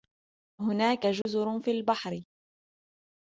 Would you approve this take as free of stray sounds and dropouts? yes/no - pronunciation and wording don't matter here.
no